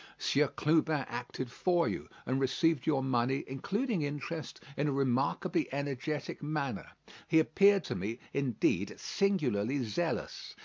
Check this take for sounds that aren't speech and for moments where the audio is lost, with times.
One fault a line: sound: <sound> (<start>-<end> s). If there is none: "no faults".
no faults